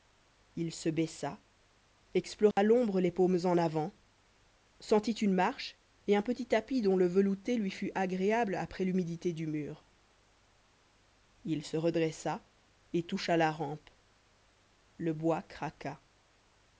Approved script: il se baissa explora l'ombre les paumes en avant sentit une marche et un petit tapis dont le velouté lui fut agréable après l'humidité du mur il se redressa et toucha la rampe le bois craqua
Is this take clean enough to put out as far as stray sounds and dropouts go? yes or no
no